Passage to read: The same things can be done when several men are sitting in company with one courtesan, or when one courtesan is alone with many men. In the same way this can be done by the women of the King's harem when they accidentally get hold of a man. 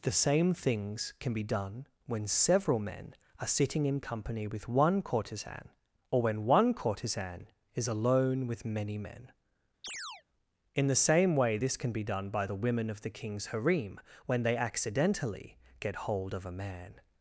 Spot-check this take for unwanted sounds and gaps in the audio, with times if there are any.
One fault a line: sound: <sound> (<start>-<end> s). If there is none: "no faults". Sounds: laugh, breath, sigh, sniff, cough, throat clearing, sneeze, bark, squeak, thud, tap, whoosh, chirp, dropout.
sound: chirp (9.8-10.2 s)